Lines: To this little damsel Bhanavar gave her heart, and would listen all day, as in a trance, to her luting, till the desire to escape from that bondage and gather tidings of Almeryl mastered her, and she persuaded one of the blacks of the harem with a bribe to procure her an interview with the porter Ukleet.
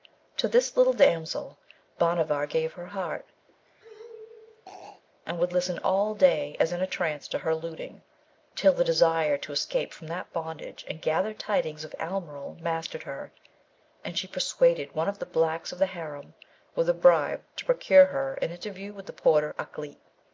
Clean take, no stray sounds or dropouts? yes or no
no